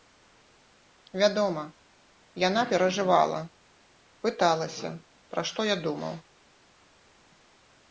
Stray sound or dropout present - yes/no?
no